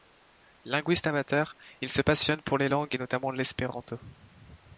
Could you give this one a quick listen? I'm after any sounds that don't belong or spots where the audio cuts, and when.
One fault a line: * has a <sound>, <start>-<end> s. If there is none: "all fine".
all fine